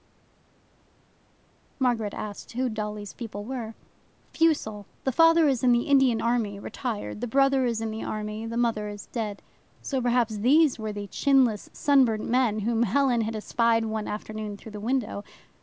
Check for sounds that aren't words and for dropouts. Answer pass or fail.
pass